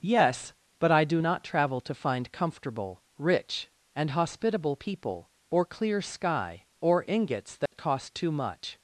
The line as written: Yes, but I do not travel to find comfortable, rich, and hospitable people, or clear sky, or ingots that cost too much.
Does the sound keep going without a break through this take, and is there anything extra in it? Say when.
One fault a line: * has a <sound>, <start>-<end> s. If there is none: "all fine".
* has a dropout, 7.7-7.7 s